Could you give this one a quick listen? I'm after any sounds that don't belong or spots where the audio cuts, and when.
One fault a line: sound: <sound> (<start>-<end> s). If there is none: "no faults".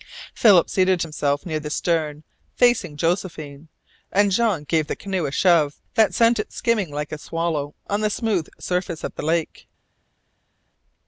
no faults